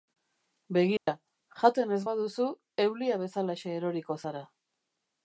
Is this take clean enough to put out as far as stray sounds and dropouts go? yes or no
no